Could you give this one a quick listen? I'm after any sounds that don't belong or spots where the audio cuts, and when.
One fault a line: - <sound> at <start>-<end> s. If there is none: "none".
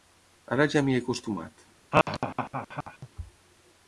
- laugh at 1.9-3.1 s